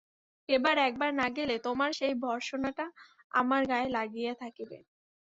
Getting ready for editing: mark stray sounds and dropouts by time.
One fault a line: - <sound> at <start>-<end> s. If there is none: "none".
none